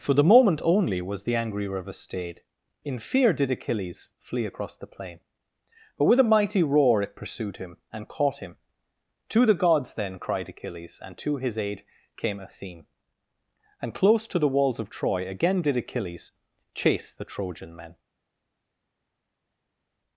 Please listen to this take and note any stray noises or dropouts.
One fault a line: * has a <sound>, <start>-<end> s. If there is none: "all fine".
all fine